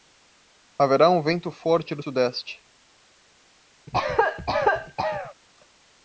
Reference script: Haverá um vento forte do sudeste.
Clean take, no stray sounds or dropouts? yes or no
no